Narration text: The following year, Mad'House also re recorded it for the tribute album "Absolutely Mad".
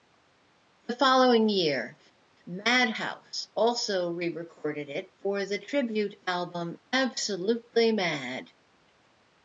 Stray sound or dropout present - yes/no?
no